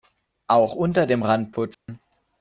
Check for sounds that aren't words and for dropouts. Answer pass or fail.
fail